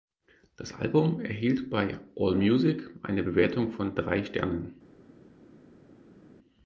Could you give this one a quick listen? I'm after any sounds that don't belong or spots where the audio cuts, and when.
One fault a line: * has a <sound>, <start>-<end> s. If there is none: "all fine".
all fine